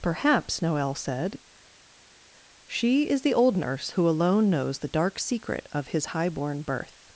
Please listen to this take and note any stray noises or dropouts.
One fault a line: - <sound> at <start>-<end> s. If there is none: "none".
none